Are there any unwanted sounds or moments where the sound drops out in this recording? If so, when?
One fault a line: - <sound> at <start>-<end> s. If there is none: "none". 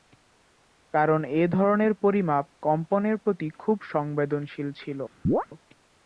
- chirp at 5.2-5.5 s